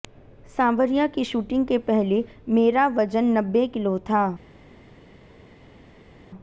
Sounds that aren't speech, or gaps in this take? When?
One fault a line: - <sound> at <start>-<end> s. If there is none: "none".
none